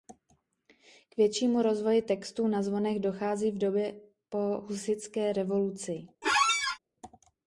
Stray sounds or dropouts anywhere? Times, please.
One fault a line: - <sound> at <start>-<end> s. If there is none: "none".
- squeak at 6.2-6.8 s